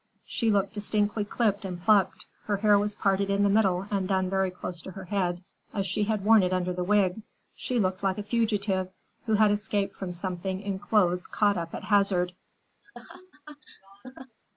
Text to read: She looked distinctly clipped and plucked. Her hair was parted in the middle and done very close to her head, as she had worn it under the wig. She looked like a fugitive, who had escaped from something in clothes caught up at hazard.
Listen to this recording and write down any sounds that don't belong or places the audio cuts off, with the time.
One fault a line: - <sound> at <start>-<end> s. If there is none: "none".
- laugh at 12.8-14.4 s